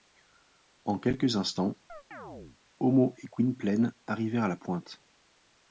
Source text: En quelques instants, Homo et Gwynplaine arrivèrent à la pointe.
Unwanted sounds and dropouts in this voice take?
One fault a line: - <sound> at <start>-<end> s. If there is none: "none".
- chirp at 1.9-2.6 s